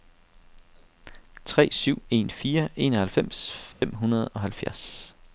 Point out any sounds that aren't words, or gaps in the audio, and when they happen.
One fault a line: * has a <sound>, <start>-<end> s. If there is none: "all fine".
* has a dropout, 3.7-3.8 s